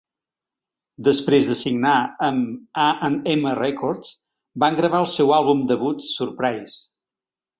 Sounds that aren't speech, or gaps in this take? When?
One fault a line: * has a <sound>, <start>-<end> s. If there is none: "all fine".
all fine